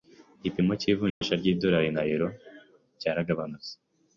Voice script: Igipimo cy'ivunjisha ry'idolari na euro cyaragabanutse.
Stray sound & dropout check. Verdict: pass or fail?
fail